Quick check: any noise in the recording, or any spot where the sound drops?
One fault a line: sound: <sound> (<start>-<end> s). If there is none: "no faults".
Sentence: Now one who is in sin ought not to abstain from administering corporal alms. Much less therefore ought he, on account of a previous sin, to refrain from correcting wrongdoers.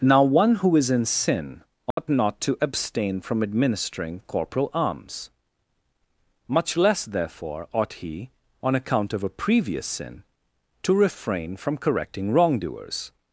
sound: dropout (1.9-2.0 s)